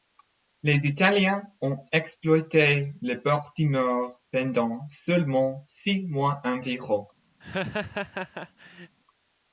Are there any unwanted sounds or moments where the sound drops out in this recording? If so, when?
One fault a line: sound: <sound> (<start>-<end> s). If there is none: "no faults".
sound: laugh (7.4-8.9 s)